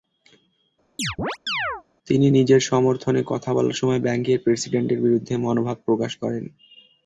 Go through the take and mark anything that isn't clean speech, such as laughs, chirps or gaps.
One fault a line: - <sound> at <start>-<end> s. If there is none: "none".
- chirp at 1.0-1.8 s